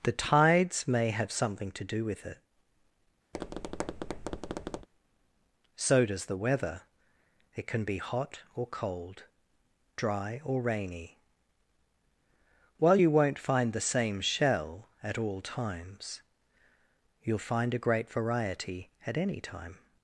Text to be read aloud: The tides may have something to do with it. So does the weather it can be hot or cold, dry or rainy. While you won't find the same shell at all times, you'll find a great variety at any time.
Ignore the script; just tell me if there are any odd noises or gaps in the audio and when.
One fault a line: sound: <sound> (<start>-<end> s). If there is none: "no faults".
sound: tap (3.3-4.9 s)